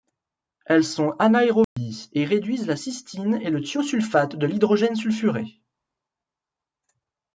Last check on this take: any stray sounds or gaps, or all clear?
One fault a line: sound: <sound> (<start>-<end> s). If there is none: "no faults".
sound: dropout (1.6-1.8 s)